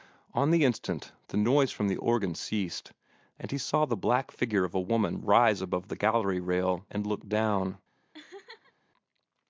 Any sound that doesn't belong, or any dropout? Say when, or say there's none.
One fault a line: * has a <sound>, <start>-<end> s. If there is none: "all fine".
* has a laugh, 8.1-8.7 s